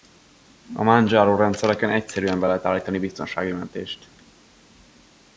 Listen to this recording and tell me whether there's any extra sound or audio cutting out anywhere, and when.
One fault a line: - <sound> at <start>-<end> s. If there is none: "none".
none